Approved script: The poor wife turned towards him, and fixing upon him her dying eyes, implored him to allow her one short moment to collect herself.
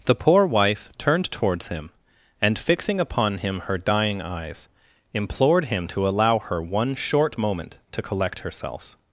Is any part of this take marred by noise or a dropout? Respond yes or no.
no